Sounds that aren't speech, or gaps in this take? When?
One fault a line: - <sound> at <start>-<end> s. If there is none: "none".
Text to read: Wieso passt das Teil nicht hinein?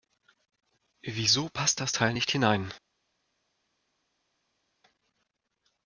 none